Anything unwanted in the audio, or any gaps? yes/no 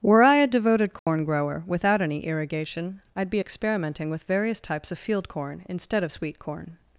yes